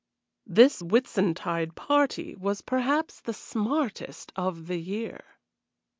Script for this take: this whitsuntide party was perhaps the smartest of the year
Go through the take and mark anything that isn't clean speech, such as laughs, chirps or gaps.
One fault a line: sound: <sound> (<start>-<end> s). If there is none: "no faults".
no faults